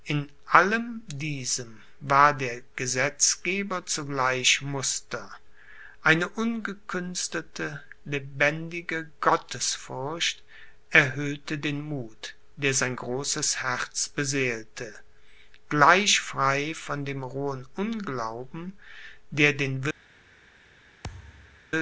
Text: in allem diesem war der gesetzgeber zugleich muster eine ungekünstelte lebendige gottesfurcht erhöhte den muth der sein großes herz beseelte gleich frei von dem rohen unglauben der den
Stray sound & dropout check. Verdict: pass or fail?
fail